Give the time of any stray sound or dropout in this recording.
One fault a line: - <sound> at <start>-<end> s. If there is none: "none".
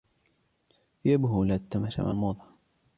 none